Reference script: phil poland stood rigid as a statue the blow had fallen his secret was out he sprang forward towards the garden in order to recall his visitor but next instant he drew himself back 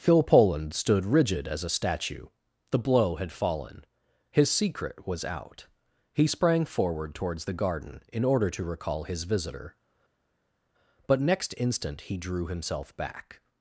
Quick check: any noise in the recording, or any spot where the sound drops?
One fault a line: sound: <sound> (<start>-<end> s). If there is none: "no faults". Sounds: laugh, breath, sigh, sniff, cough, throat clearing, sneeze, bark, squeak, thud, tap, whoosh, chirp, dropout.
no faults